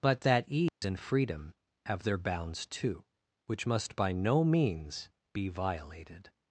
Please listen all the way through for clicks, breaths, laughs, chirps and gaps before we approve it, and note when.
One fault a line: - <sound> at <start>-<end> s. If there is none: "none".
- dropout at 0.7-0.8 s